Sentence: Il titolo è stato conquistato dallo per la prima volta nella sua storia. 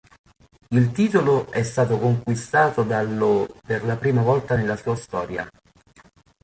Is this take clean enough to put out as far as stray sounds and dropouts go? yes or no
yes